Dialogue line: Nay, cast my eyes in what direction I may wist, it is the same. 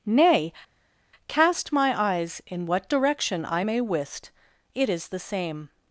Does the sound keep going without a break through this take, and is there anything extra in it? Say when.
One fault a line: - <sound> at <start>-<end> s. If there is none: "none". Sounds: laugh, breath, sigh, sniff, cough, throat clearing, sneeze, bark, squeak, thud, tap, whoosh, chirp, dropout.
none